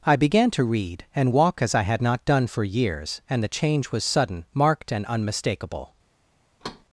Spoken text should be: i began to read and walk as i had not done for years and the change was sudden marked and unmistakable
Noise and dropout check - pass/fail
fail